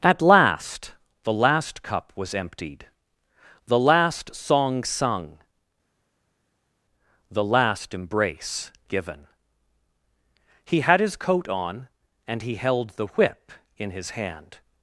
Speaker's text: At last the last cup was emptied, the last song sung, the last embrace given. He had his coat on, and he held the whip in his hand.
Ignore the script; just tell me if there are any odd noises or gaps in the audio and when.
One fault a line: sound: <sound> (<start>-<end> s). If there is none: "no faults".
no faults